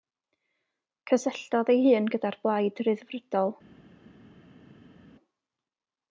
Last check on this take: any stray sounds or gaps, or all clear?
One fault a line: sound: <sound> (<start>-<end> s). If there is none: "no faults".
no faults